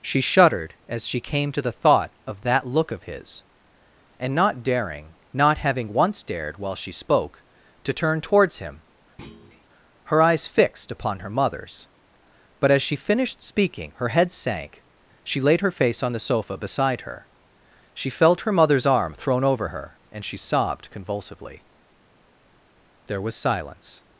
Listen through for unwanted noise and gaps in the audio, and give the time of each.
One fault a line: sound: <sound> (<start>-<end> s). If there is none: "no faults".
sound: thud (9.2-9.7 s)